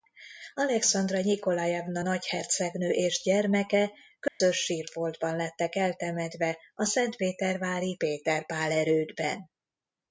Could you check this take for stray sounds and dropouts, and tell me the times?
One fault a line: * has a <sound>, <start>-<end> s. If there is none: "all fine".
* has a dropout, 4.3-4.4 s